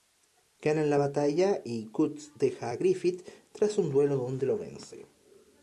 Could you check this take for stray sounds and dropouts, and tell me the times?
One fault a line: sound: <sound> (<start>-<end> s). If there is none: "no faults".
no faults